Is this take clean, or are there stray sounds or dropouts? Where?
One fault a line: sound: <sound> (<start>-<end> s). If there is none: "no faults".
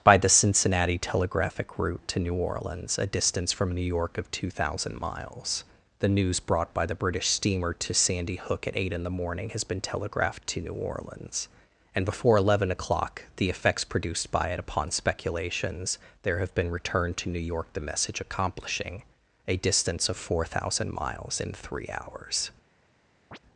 sound: chirp (23.3-23.4 s)